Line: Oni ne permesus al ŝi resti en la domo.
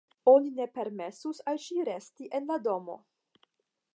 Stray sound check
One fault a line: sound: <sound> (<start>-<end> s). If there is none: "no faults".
no faults